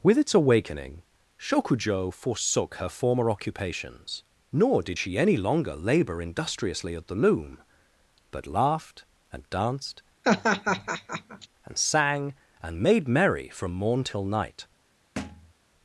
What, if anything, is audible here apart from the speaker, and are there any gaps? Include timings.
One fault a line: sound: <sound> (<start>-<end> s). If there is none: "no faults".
sound: laugh (10.2-11.5 s)
sound: thud (15.2-15.5 s)